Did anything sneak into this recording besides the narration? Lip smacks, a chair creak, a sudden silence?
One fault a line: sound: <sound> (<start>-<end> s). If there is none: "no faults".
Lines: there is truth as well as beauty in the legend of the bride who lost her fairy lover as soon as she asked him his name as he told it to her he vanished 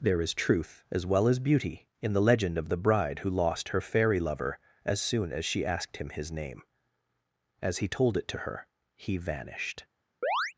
sound: chirp (10.2-10.5 s)